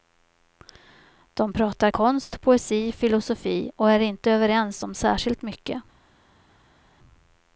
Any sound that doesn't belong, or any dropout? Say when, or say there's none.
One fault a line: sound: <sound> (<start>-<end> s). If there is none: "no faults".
no faults